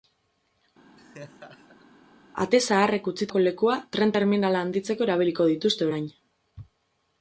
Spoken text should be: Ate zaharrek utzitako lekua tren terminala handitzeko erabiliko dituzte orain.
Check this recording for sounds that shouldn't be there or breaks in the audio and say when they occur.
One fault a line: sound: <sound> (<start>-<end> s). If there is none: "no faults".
sound: laugh (1.0-1.9 s)